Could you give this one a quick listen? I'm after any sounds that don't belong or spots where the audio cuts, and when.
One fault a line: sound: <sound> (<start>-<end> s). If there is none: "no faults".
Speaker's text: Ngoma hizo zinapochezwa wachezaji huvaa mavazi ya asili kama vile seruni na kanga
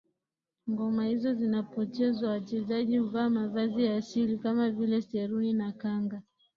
no faults